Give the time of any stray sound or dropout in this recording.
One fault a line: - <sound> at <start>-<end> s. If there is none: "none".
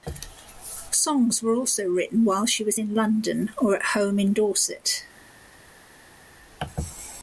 none